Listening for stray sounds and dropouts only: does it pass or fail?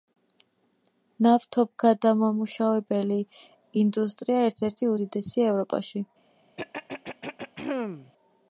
fail